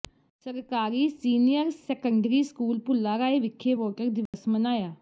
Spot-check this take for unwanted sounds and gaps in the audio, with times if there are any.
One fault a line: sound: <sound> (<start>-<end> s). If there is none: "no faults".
sound: dropout (4.3-4.3 s)